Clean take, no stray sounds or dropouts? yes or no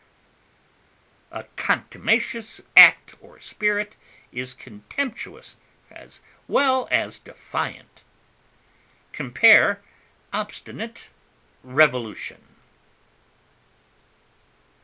yes